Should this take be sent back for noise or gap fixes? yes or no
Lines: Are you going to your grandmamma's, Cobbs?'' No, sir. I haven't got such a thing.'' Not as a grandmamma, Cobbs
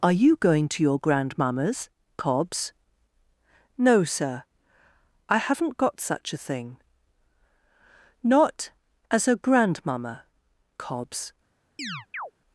yes